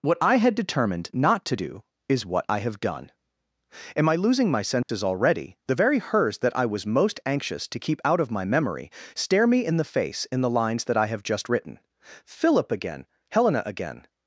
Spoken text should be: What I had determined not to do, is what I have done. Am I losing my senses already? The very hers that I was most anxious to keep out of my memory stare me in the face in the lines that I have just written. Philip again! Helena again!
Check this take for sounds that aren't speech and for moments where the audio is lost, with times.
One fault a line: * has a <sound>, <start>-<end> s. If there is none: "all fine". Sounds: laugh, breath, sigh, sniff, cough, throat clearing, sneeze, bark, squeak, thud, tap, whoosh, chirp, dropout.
* has a dropout, 4.8-4.9 s